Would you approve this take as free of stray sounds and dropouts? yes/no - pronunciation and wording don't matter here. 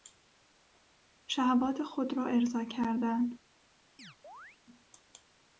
no